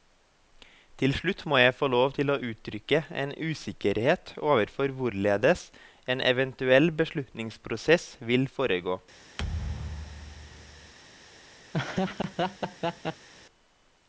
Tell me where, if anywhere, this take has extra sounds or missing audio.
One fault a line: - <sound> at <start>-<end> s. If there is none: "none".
- thud at 9.4-10.9 s
- laugh at 11.7-13.3 s